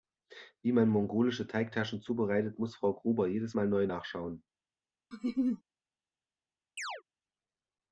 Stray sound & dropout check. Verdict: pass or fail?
fail